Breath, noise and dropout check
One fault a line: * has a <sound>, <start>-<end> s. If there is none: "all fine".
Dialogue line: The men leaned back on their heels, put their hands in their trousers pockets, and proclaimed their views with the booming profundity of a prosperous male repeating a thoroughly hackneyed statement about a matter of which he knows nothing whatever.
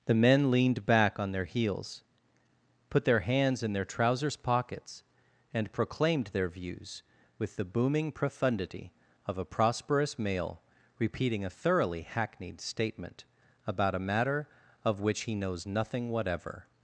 all fine